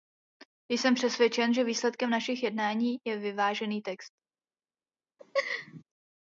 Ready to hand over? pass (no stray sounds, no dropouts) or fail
fail